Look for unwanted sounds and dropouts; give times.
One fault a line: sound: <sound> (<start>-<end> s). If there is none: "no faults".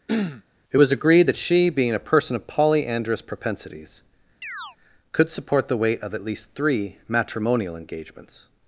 sound: throat clearing (0.1-0.4 s)
sound: chirp (4.4-4.8 s)